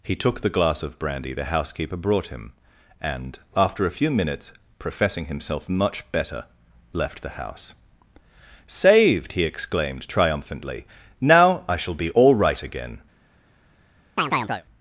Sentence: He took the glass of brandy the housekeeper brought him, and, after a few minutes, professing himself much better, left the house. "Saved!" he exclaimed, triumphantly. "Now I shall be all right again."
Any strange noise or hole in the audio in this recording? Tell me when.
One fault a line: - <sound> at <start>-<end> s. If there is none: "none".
- chirp at 14.2-14.7 s